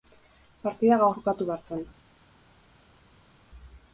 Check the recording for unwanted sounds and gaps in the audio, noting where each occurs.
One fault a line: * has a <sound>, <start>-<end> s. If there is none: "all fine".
all fine